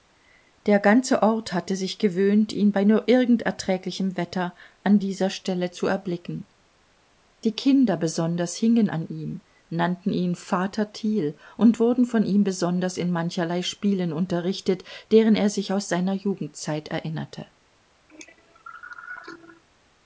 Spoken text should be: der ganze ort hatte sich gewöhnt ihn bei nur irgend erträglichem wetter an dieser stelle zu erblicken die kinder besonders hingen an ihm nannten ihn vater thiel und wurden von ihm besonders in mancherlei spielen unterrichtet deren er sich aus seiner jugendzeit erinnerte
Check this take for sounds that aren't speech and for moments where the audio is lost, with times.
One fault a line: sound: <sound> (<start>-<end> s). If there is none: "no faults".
sound: cough (18.1-19.6 s)